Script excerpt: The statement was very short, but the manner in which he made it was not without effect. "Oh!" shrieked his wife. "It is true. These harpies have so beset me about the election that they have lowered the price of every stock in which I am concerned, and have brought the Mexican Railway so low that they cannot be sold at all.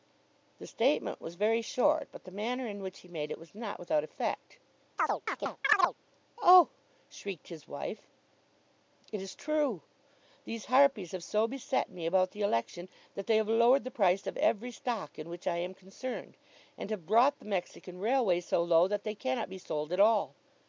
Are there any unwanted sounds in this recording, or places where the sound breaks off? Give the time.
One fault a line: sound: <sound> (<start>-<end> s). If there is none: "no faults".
sound: chirp (5.0-6.0 s)